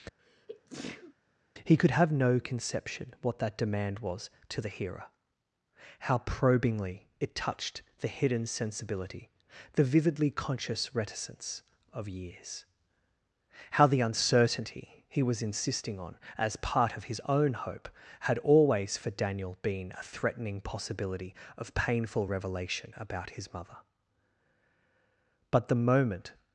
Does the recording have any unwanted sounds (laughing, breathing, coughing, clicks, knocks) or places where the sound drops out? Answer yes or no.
yes